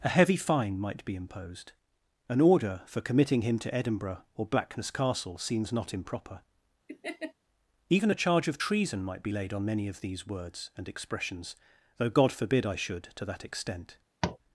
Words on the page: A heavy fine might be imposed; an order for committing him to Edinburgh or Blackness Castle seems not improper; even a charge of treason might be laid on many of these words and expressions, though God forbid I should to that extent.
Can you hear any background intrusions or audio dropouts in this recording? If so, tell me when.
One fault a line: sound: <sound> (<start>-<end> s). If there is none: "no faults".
sound: laugh (6.9-7.3 s)
sound: tap (14.2-14.4 s)